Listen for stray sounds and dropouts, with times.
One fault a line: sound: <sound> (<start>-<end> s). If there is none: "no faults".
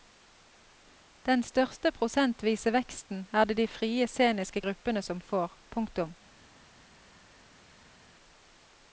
no faults